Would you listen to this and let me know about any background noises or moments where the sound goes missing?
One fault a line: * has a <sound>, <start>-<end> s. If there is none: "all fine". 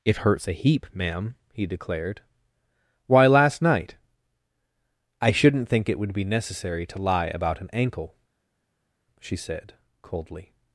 all fine